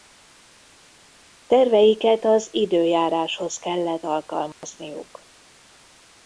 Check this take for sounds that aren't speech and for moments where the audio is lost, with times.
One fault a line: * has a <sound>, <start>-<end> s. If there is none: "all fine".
* has a dropout, 4.5-4.6 s